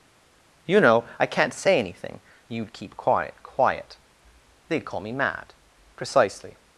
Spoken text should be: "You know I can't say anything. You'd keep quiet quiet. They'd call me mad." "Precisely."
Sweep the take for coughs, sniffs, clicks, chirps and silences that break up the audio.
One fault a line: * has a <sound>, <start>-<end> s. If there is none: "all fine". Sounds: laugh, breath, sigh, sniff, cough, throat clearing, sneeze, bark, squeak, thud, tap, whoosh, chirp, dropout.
all fine